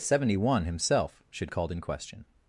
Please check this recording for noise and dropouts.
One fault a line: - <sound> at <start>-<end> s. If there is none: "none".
none